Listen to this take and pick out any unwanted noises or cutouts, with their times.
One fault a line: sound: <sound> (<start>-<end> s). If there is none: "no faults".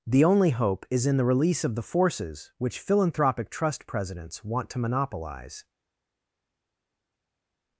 no faults